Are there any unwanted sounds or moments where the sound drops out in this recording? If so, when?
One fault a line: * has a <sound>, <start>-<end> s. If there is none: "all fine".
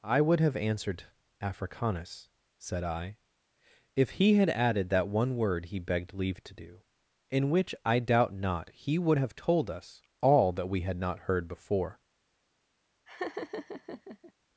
* has a laugh, 13.1-14.3 s